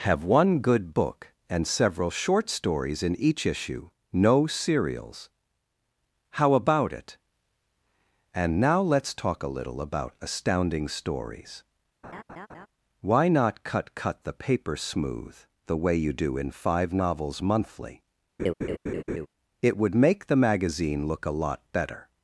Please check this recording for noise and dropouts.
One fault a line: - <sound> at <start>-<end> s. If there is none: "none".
- laugh at 12.0-12.7 s
- laugh at 18.4-19.3 s